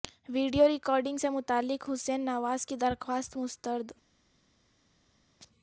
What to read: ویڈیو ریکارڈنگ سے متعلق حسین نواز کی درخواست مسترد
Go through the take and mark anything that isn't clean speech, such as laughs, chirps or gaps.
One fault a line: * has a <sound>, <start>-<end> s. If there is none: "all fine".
all fine